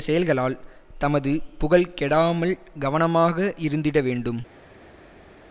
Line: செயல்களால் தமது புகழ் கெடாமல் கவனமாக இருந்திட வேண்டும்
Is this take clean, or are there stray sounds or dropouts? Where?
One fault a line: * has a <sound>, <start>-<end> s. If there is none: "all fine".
all fine